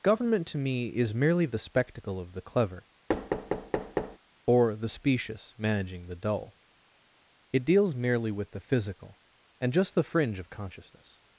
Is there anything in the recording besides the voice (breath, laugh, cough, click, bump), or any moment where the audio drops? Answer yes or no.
yes